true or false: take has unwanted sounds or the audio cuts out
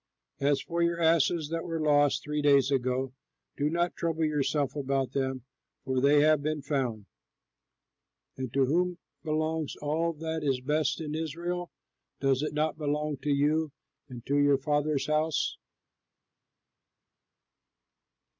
false